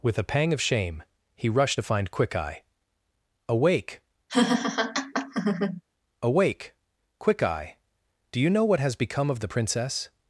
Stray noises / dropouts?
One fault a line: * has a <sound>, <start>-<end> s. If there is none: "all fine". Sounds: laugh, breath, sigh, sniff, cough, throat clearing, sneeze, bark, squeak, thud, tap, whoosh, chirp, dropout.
* has a laugh, 4.3-5.8 s